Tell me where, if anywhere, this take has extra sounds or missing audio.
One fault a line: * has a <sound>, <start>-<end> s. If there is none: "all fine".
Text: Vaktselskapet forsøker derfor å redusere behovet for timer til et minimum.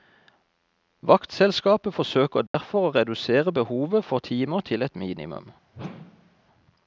* has a dropout, 2.5-2.5 s
* has a whoosh, 5.7-6.5 s